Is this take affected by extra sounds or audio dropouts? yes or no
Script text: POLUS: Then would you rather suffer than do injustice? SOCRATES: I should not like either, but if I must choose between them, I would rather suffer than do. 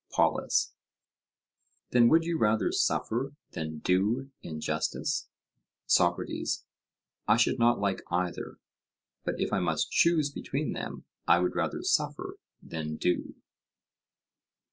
no